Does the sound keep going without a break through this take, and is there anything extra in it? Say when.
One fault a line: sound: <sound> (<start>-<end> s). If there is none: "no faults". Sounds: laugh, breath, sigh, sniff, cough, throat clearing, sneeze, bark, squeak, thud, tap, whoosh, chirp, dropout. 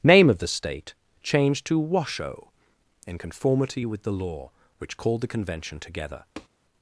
sound: tap (6.4-6.5 s)